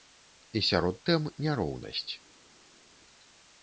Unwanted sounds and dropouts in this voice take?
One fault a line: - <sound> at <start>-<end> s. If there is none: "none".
none